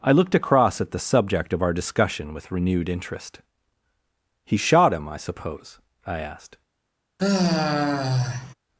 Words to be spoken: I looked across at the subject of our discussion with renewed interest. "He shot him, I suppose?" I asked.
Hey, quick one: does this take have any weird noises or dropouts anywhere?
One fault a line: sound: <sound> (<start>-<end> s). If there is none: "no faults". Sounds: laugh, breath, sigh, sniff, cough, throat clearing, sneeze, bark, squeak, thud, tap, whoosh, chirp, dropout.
sound: sigh (7.2-8.5 s)